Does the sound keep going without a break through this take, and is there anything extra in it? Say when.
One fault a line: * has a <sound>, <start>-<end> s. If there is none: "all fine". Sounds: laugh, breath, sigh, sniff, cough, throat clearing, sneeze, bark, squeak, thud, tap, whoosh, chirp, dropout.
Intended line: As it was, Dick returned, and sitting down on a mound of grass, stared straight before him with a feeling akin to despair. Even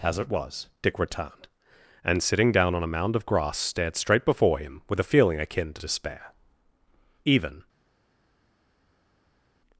all fine